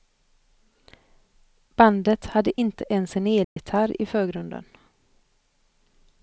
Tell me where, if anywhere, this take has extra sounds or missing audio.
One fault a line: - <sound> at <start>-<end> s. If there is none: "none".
- dropout at 3.4-3.6 s